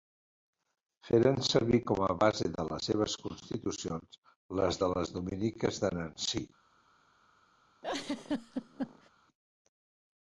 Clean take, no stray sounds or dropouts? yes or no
no